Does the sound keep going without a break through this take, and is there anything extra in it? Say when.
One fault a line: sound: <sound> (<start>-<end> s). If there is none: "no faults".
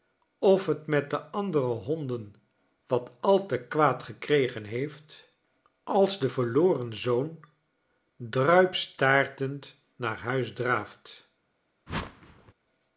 sound: whoosh (11.9-12.5 s)